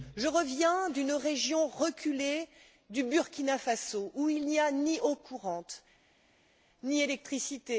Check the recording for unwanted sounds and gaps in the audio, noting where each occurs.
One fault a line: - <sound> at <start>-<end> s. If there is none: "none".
none